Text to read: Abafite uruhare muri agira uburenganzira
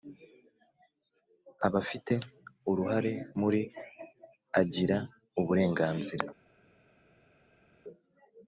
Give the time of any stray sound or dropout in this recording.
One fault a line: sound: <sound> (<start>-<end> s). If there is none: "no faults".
no faults